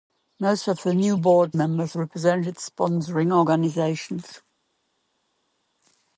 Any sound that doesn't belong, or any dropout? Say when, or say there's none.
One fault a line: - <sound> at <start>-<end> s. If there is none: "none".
none